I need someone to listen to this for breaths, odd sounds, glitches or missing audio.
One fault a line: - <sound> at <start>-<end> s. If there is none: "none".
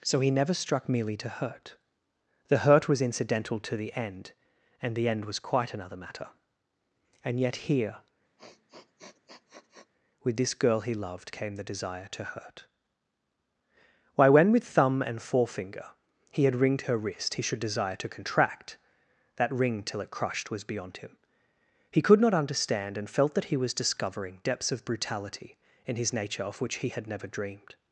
- sniff at 8.4-9.9 s